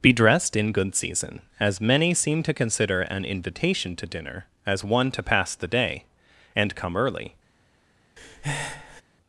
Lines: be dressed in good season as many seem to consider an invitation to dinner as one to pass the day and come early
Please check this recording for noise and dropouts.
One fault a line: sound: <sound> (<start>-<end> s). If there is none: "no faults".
sound: breath (8.2-9.0 s)